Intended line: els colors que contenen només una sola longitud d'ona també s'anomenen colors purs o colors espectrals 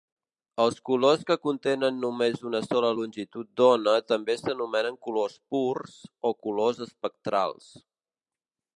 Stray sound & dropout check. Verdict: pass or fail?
pass